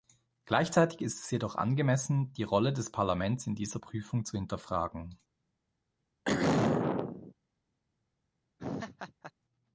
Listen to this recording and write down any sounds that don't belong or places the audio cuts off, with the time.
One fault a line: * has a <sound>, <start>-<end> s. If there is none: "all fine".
* has a throat clearing, 6.3-7.3 s
* has a laugh, 8.6-9.3 s